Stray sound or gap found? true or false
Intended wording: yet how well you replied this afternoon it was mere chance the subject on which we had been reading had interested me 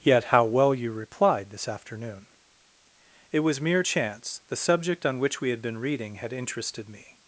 false